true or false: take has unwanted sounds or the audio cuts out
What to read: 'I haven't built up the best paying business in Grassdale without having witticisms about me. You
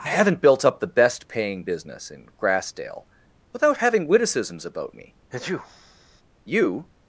true